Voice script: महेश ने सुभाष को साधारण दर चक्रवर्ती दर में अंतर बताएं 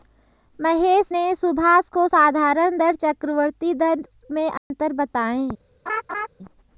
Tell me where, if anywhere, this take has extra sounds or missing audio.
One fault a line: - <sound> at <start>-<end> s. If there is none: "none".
- dropout at 4.6-4.7 s
- laugh at 5.9-6.3 s